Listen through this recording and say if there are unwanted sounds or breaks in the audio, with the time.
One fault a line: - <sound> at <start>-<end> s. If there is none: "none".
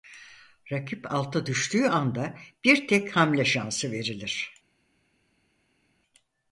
none